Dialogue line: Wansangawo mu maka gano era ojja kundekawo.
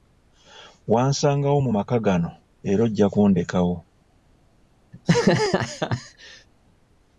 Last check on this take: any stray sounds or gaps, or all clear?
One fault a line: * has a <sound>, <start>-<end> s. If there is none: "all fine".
* has a laugh, 4.9-6.5 s